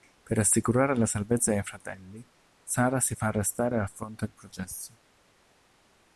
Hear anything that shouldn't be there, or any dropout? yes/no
no